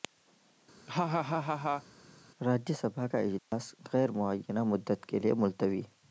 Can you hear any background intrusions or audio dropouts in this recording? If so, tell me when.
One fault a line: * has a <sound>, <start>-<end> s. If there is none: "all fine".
* has a laugh, 0.9-1.8 s
* has a dropout, 3.4-3.5 s